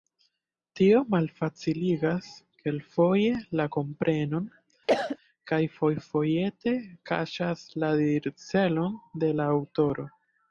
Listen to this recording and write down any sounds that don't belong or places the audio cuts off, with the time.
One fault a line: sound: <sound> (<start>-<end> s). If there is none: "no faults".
sound: cough (4.9-5.2 s)